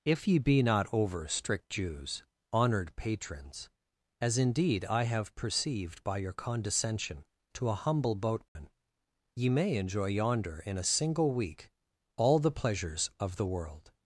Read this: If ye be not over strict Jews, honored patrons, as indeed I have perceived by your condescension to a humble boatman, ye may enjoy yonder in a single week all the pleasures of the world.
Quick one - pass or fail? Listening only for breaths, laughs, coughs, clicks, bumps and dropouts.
fail